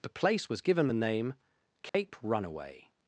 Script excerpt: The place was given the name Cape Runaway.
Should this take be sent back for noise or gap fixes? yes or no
yes